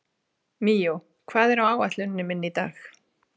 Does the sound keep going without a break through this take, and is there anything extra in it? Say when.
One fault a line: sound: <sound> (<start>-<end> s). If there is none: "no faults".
no faults